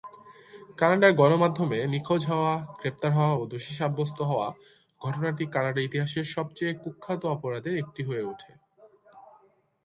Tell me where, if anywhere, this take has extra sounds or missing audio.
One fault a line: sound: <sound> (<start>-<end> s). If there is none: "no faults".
no faults